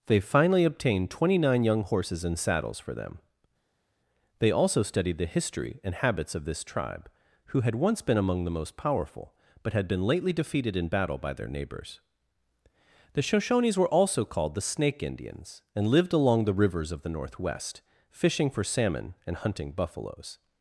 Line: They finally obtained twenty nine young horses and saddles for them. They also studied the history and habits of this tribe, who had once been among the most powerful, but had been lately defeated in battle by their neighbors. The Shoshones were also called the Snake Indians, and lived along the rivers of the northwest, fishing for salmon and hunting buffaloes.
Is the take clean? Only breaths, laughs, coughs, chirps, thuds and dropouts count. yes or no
yes